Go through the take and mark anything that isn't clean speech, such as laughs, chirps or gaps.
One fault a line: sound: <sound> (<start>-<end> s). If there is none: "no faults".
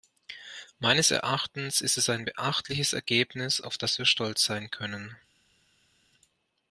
no faults